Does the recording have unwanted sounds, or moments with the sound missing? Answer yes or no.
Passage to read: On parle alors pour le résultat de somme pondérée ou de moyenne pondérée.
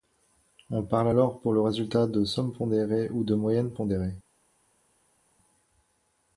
no